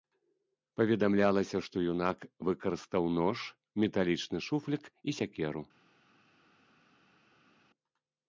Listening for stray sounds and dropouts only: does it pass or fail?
pass